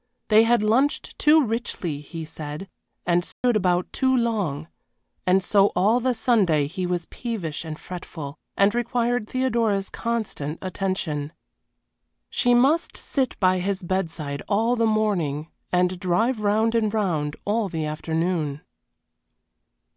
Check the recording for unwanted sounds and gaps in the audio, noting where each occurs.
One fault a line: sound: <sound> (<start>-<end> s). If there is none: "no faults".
sound: dropout (3.3-3.4 s)